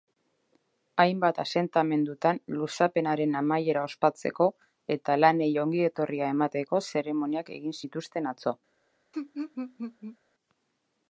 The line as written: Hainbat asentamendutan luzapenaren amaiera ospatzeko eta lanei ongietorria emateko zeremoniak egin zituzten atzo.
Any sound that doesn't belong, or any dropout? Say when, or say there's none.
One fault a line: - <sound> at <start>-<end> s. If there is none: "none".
- laugh at 9.1-10.2 s